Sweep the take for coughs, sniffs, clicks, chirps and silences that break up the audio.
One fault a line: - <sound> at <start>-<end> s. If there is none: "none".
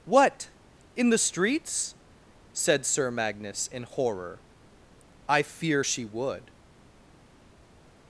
none